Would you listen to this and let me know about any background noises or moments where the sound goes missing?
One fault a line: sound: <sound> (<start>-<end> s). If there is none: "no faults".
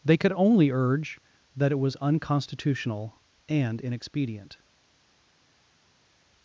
no faults